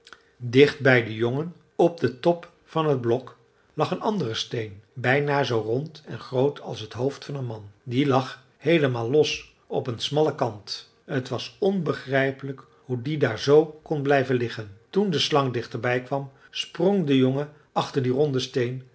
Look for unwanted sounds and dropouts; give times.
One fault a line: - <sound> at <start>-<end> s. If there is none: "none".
none